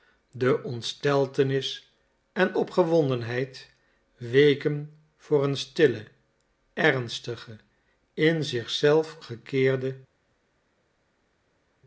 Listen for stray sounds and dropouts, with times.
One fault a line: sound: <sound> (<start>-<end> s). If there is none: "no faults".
no faults